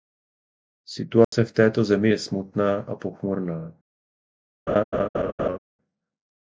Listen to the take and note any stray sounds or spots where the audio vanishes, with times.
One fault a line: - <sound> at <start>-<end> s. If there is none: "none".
- dropout at 1.2-1.3 s
- laugh at 4.7-5.6 s